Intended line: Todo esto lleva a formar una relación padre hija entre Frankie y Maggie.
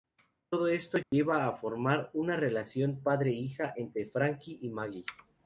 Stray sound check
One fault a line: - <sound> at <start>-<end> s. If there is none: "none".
- dropout at 1.0-1.1 s